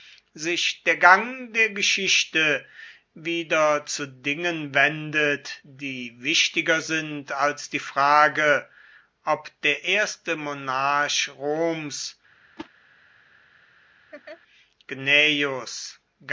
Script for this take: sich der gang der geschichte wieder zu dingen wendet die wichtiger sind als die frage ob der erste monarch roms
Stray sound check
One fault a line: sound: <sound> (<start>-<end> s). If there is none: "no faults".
sound: whoosh (12.6-12.7 s)
sound: laugh (14.1-14.4 s)